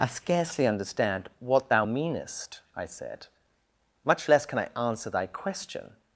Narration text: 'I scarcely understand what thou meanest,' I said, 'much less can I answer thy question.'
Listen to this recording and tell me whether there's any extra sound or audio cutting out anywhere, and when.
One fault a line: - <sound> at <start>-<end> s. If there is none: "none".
none